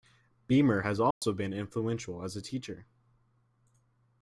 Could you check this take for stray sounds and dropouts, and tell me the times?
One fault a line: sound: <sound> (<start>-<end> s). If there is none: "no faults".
sound: dropout (1.1-1.2 s)